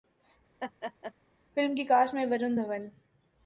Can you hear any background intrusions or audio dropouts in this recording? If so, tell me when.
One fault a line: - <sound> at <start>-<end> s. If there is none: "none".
- laugh at 0.6-1.1 s